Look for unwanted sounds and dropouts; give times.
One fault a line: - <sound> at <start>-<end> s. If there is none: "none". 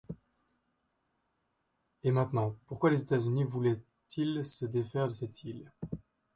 none